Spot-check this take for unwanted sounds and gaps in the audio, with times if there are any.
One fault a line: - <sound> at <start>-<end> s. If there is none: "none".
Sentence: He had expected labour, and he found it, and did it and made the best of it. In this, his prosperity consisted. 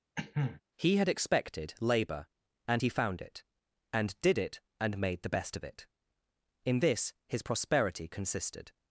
- cough at 0.2-0.6 s